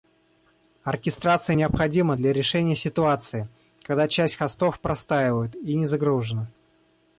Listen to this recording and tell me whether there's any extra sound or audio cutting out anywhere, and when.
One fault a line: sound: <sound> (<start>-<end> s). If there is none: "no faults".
no faults